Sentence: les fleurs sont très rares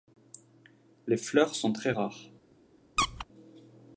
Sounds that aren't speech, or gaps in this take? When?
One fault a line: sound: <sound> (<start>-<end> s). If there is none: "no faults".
sound: squeak (3.0-3.3 s)